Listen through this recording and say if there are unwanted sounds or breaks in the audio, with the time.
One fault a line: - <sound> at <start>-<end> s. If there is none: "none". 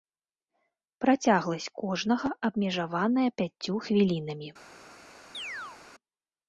- chirp at 5.3-5.8 s